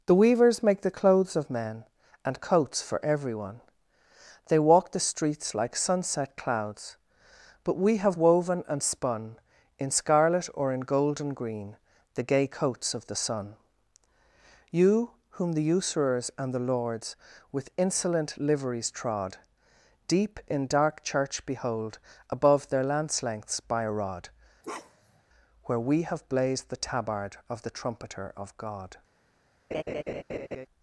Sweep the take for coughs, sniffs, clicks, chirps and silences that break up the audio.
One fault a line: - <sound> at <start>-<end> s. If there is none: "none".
- bark at 24.6-25.2 s
- laugh at 29.7-30.7 s